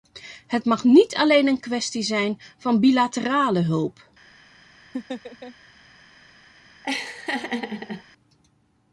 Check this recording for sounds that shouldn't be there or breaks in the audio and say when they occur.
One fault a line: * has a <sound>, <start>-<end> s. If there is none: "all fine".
* has a laugh, 4.9-5.5 s
* has a laugh, 6.8-8.0 s